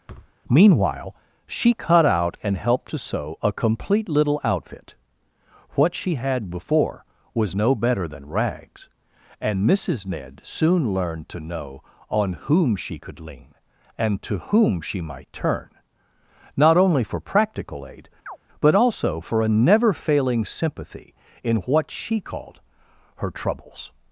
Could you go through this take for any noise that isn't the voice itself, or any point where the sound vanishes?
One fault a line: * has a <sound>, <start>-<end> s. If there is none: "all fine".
* has a thud, 0.1-0.3 s
* has a chirp, 18.3-18.4 s